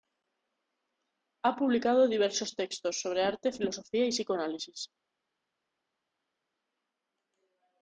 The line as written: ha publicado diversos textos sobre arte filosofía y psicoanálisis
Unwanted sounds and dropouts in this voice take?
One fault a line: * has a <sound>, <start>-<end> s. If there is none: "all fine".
all fine